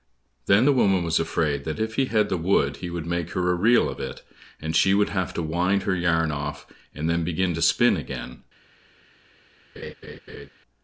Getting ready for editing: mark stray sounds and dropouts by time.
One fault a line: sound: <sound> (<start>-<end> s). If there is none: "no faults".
sound: laugh (9.8-10.5 s)